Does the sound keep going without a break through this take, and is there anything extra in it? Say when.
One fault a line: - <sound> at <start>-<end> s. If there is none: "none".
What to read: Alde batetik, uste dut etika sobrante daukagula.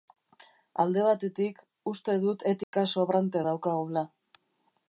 - dropout at 2.6-2.7 s